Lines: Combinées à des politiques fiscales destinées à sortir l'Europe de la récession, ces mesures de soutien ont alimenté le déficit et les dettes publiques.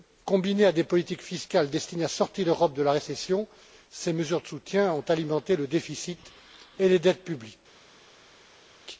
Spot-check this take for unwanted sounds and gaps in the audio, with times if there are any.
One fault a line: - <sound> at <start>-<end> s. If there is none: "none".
none